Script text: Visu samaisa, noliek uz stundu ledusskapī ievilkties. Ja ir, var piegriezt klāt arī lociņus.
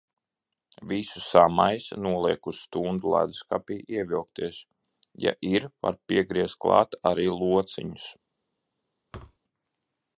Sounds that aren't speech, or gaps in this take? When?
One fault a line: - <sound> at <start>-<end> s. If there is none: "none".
- thud at 9.1-9.4 s